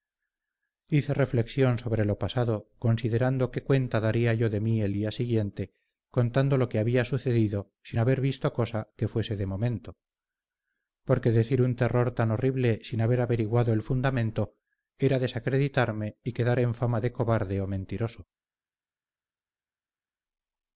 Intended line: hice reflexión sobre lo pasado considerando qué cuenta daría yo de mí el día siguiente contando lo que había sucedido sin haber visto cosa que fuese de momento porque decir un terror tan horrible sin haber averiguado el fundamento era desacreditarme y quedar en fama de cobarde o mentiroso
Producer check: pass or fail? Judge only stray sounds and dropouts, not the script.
pass